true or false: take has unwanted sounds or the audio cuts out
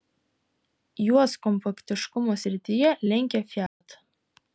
true